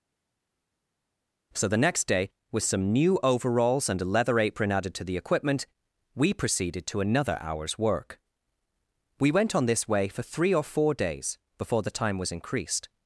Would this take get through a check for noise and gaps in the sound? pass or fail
pass